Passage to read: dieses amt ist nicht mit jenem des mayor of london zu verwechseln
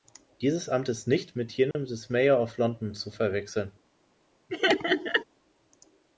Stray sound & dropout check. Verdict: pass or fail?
fail